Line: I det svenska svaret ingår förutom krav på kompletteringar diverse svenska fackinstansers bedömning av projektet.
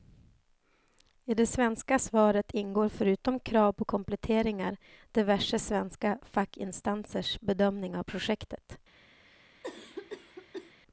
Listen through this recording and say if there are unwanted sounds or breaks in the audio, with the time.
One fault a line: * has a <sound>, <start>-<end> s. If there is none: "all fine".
* has a cough, 9.3-10.7 s